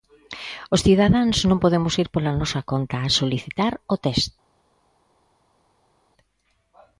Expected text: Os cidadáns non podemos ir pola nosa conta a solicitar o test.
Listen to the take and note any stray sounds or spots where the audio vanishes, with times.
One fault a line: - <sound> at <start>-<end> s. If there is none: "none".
none